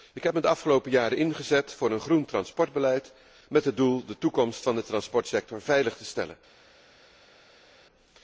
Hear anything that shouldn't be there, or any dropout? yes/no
no